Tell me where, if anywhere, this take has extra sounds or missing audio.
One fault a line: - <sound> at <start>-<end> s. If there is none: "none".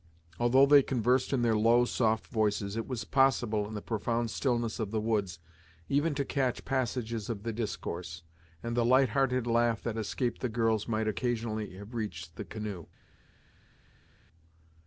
none